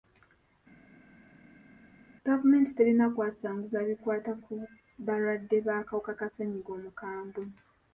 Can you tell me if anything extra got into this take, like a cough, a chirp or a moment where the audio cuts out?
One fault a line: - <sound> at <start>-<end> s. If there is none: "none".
none